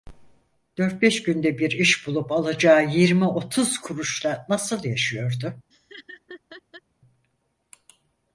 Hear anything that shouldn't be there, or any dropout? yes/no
yes